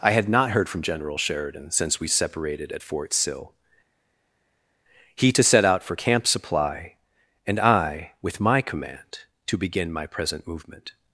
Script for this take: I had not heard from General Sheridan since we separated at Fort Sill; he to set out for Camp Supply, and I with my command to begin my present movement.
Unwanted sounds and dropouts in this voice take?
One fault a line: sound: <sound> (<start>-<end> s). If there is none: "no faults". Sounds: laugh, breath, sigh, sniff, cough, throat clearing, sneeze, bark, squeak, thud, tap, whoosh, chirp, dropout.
no faults